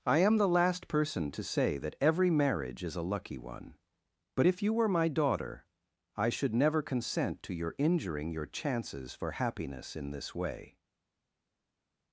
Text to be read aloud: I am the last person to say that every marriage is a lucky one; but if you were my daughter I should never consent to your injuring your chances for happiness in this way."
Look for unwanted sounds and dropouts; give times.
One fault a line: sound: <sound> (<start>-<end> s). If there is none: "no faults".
no faults